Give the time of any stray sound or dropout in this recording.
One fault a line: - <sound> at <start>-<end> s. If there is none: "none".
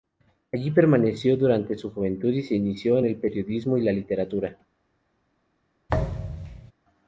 - thud at 5.9-6.7 s